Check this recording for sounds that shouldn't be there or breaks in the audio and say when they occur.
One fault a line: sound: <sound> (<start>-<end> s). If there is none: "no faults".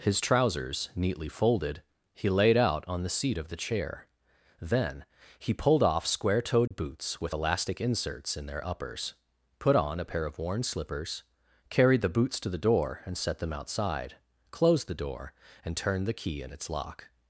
sound: dropout (6.7-6.7 s)